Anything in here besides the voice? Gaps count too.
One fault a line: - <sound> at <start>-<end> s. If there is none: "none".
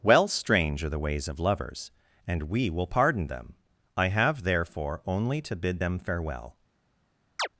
- chirp at 7.4-7.5 s